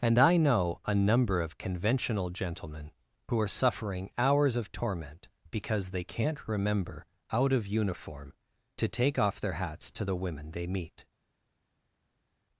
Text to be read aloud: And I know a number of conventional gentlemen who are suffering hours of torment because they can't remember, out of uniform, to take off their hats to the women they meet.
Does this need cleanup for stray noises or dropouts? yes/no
no